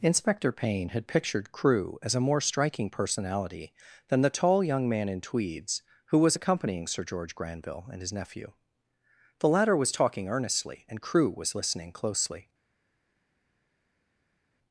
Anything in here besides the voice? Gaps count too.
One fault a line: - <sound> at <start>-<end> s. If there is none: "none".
none